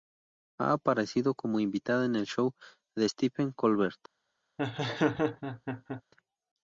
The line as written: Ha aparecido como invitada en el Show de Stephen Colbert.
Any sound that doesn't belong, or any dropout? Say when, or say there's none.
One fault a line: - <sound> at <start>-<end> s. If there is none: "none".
- laugh at 4.6-6.0 s